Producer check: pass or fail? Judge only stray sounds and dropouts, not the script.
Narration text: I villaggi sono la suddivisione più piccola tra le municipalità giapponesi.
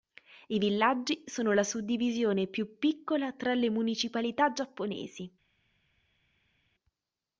pass